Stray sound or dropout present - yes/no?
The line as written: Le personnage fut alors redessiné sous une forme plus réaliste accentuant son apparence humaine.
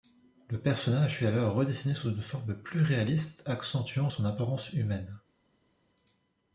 no